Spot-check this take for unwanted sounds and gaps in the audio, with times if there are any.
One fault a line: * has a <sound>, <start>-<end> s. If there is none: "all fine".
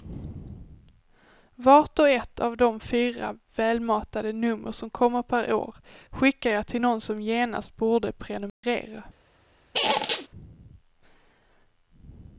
* has a dropout, 8.5-8.6 s
* has a squeak, 9.7-10.3 s